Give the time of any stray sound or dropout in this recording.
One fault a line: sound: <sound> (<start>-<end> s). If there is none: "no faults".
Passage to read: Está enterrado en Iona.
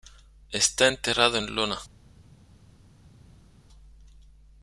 no faults